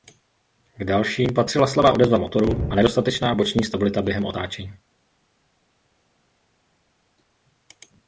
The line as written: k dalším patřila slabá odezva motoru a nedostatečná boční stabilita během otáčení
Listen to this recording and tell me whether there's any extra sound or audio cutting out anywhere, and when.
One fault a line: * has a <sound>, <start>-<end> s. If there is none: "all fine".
all fine